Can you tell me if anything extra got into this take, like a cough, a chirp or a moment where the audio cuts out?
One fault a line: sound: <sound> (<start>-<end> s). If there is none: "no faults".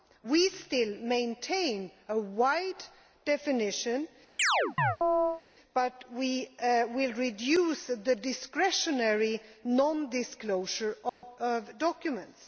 sound: chirp (4.4-5.4 s)
sound: dropout (11.1-11.2 s)